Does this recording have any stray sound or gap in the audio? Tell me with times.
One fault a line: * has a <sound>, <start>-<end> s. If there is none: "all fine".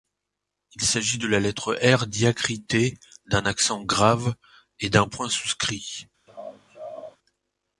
* has a laugh, 6.3-7.2 s